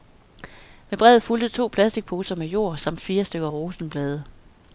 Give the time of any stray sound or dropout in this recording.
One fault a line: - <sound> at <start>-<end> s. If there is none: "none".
none